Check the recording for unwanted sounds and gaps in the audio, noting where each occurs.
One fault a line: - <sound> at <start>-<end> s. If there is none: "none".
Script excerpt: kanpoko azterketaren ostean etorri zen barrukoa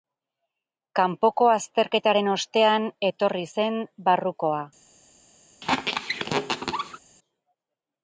- squeak at 5.6-7.0 s